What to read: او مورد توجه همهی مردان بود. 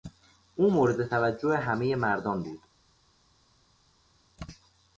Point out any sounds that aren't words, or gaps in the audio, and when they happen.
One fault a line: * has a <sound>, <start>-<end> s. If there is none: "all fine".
all fine